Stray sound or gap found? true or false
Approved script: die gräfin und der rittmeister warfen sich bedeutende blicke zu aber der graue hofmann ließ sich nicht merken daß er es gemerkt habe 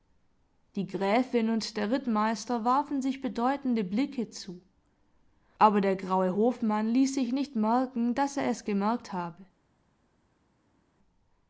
false